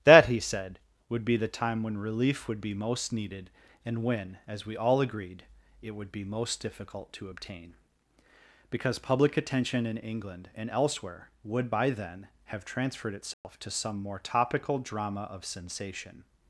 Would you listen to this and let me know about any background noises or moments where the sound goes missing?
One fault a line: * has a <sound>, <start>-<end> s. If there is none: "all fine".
* has a dropout, 13.3-13.4 s